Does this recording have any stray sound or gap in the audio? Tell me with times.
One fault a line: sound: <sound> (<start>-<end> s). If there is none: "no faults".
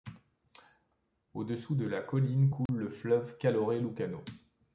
sound: dropout (2.7-2.7 s)